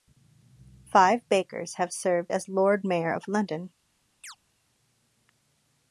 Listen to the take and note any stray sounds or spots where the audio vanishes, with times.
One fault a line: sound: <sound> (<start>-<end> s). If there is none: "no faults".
sound: chirp (4.2-4.4 s)